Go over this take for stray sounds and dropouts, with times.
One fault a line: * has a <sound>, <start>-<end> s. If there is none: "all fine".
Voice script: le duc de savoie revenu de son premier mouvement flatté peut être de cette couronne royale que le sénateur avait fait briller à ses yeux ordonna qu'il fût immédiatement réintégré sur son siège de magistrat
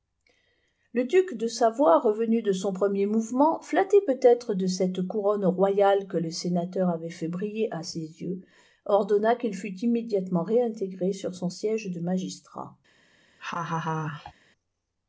* has a laugh, 13.4-14.3 s